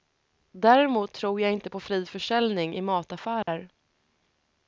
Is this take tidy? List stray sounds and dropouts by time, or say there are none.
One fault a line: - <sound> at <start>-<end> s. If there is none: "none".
- dropout at 3.4-3.5 s